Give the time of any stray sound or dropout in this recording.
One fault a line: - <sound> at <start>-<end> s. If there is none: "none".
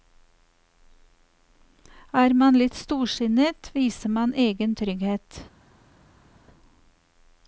none